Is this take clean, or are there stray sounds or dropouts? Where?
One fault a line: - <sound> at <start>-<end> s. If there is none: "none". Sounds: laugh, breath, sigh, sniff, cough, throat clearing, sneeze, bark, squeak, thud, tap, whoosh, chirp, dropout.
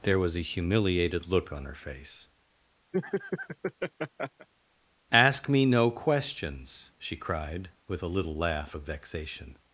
- laugh at 2.9-4.5 s